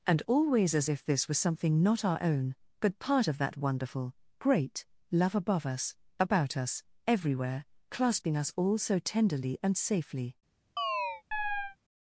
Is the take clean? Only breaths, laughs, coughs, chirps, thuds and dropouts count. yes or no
no